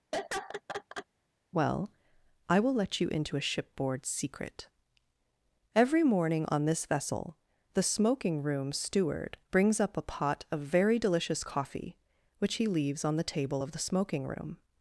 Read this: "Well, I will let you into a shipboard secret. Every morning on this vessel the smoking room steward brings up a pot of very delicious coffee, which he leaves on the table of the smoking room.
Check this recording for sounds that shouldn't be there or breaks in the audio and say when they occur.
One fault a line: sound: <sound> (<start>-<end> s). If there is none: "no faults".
sound: laugh (0.1-1.1 s)